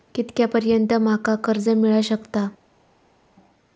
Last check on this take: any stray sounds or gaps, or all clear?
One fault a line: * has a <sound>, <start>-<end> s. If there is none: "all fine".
all fine